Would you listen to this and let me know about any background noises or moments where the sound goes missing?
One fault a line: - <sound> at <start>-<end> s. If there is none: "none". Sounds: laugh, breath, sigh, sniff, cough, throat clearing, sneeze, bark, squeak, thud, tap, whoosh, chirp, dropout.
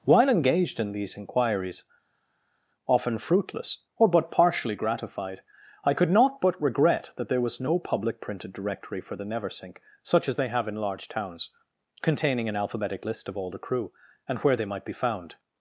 none